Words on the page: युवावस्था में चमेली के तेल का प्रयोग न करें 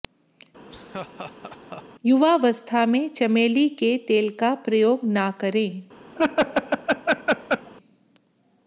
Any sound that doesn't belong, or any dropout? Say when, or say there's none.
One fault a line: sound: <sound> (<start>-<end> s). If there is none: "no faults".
sound: laugh (0.7-1.8 s)
sound: laugh (6.2-7.7 s)